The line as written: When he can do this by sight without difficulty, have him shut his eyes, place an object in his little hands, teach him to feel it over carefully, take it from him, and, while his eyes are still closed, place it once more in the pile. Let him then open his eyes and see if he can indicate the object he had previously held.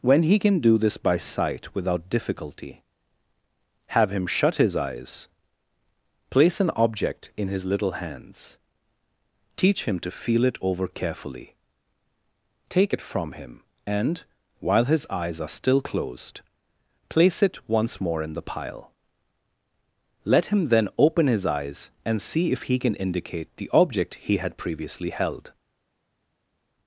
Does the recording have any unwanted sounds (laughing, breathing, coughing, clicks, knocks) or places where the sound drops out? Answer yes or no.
no